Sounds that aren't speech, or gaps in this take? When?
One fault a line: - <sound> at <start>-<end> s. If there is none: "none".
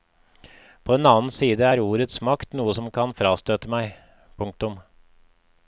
none